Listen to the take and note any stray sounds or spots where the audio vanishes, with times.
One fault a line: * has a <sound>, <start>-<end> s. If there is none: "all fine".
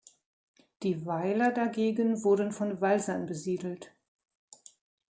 all fine